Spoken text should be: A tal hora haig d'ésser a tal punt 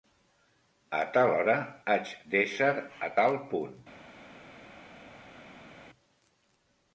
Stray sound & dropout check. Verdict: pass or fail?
pass